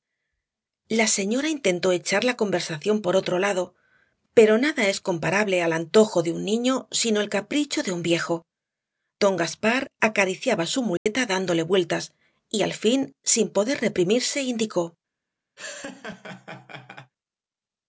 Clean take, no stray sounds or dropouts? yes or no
no